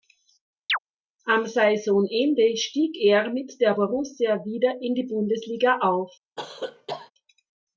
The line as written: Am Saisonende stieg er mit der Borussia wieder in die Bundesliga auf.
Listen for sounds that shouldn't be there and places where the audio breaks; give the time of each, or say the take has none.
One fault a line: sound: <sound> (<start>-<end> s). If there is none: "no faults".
sound: chirp (0.7-0.8 s)
sound: cough (6.4-7.1 s)